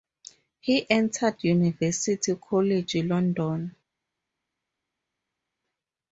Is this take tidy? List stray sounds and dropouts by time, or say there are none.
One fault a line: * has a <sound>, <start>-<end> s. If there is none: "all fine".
all fine